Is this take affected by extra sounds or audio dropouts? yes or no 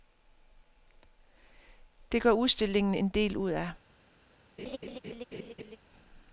yes